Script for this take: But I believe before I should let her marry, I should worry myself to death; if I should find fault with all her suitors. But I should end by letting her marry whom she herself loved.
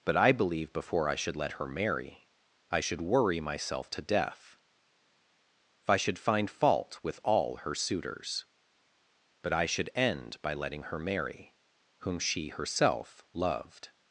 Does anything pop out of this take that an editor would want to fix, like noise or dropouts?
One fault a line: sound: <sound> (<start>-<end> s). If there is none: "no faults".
no faults